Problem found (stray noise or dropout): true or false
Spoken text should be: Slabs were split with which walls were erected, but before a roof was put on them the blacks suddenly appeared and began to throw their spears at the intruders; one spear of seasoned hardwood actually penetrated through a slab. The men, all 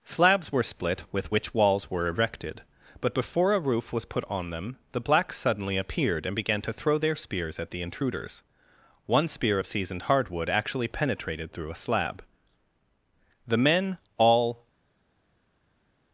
false